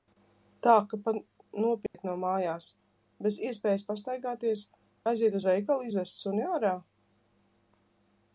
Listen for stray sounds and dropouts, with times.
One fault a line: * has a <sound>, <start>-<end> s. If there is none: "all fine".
* has a dropout, 1.9-1.9 s